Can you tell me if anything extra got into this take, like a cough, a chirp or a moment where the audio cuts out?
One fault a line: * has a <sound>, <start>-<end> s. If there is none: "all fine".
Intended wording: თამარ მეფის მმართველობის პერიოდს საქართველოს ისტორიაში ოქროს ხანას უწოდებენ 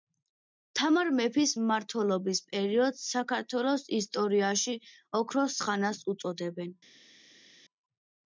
all fine